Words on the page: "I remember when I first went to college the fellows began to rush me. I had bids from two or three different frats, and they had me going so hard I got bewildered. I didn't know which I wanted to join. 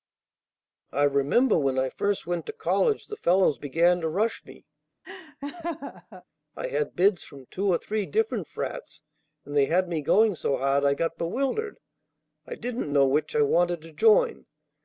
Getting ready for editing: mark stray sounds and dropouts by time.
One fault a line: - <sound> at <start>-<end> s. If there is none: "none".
- laugh at 5.0-6.2 s